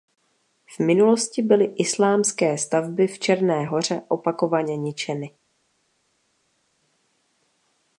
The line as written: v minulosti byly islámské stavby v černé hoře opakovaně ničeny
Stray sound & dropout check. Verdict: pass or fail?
pass